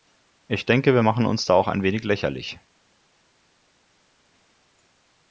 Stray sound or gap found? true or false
false